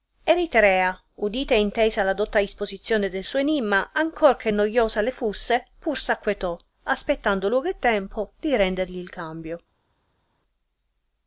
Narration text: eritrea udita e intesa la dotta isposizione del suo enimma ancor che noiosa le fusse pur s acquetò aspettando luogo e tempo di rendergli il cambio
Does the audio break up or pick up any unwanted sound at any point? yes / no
no